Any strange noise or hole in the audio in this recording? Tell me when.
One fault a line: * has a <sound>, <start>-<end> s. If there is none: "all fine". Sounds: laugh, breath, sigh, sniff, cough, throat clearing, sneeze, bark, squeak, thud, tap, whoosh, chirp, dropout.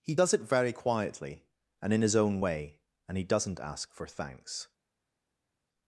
all fine